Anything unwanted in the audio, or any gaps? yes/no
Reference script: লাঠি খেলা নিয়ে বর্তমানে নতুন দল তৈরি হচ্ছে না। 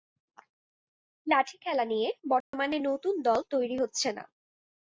yes